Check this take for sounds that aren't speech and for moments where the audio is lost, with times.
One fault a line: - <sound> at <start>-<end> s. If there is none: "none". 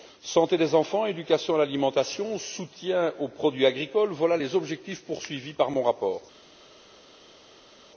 none